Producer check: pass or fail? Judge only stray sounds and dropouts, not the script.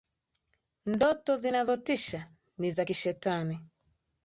pass